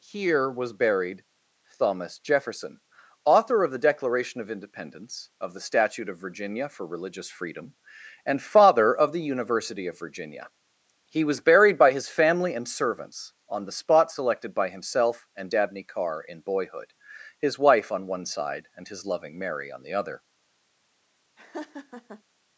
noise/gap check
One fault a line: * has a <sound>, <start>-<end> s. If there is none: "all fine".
* has a laugh, 21.4-22.2 s